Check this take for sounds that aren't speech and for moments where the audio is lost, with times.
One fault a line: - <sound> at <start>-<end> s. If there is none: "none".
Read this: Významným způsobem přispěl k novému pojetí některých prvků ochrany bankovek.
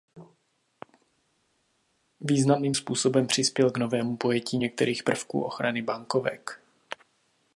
none